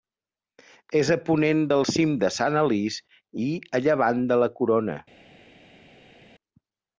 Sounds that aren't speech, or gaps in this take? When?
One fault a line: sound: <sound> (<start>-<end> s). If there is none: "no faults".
no faults